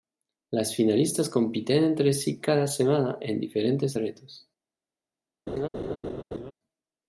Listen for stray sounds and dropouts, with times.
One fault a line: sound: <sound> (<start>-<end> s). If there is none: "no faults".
sound: laugh (5.5-6.5 s)